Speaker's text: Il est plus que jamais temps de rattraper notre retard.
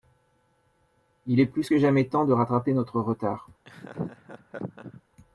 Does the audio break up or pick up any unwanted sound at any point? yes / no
yes